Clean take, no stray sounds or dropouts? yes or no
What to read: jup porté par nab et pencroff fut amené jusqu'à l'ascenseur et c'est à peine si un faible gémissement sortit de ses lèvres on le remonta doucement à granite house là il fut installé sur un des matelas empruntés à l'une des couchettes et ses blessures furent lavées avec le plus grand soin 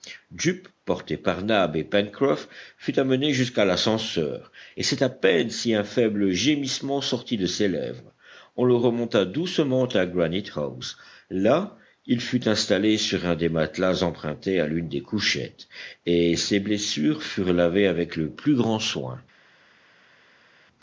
yes